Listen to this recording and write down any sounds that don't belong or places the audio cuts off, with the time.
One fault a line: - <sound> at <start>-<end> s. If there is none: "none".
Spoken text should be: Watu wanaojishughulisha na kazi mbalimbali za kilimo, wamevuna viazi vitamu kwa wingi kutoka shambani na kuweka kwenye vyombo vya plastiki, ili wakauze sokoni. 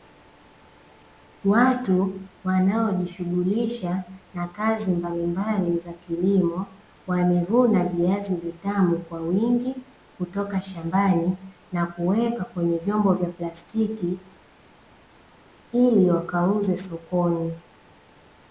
none